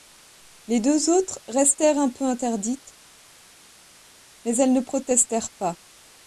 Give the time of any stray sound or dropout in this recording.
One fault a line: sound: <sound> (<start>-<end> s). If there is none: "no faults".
no faults